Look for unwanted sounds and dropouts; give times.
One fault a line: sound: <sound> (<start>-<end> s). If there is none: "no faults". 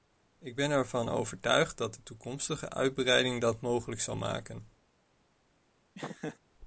sound: laugh (5.9-6.4 s)